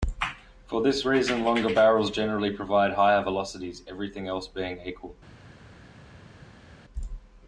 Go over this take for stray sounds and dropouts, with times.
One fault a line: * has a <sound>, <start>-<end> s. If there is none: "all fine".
all fine